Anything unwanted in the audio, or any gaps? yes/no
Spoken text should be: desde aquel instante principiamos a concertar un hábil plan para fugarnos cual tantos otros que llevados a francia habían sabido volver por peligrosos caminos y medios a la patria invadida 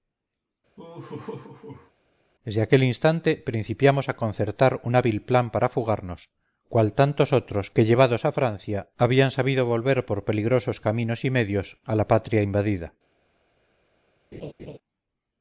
yes